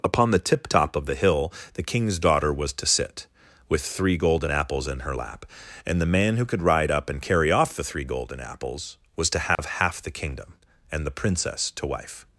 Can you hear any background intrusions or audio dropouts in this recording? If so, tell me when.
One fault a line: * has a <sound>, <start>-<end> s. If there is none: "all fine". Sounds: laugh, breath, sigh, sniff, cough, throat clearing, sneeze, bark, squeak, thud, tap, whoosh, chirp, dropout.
* has a dropout, 9.6-9.6 s